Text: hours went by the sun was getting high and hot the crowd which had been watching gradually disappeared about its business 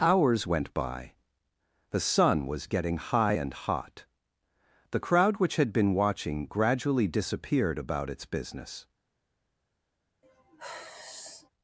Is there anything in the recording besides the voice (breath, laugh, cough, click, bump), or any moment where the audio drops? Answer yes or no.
yes